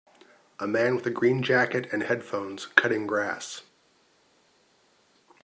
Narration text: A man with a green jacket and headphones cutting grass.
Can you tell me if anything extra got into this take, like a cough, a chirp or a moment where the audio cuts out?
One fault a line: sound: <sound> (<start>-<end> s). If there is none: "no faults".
no faults